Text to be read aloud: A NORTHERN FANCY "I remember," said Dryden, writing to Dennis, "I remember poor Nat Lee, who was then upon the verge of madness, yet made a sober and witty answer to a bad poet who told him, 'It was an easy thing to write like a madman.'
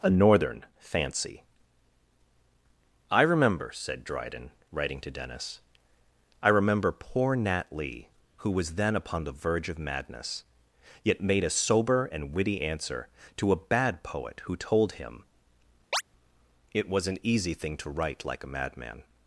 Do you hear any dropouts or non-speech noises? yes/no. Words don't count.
yes